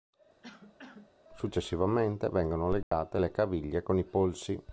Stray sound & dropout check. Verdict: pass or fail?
fail